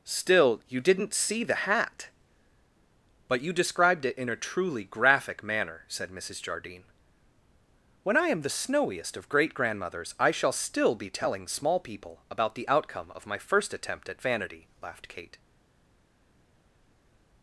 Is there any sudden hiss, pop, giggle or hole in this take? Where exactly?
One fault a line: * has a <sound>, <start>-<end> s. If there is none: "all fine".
all fine